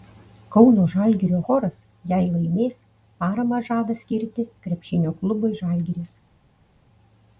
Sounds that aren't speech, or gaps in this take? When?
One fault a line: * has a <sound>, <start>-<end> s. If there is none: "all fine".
all fine